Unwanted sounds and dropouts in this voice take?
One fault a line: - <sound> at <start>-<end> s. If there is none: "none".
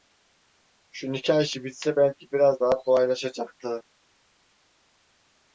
none